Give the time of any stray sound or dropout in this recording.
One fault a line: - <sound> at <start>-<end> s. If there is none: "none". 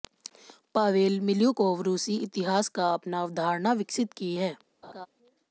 - laugh at 4.8-5.1 s